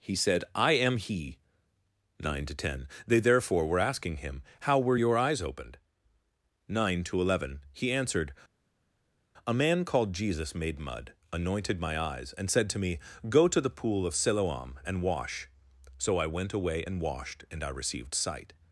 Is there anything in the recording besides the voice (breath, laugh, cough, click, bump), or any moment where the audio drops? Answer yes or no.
no